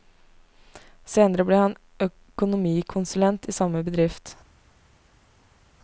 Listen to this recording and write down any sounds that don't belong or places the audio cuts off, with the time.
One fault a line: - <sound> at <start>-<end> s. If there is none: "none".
none